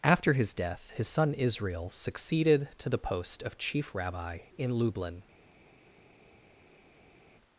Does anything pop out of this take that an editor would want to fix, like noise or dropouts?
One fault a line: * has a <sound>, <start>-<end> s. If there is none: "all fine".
all fine